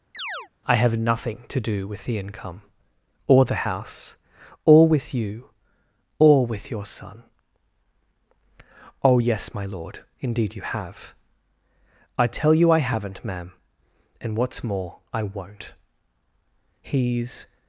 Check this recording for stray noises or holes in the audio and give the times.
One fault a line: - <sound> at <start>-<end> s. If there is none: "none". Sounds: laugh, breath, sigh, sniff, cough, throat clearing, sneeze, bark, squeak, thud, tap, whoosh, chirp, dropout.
- chirp at 0.1-0.5 s